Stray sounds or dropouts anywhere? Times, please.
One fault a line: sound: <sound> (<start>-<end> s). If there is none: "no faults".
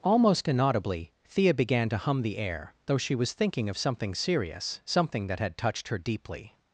no faults